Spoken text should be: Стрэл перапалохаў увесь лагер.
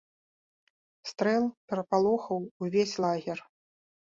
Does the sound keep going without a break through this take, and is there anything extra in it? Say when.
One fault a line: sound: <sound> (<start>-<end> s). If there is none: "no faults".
no faults